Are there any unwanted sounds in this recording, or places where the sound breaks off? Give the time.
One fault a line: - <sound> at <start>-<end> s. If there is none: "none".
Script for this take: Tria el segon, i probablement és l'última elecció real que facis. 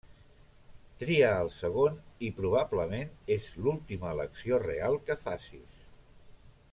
none